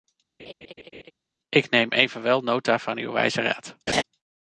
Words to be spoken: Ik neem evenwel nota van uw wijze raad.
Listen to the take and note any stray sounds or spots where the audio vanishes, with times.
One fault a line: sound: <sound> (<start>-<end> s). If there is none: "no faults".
sound: laugh (0.4-1.1 s)
sound: laugh (3.9-4.0 s)